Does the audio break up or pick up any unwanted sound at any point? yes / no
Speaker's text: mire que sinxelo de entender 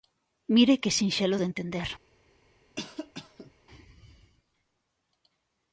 yes